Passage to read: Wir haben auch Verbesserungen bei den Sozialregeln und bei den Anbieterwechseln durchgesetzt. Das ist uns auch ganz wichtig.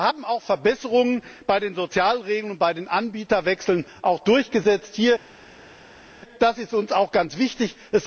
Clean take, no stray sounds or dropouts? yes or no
yes